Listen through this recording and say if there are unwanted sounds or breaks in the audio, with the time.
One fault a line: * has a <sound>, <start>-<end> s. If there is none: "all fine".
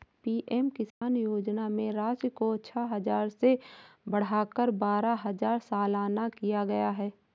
* has a dropout, 0.9-1.0 s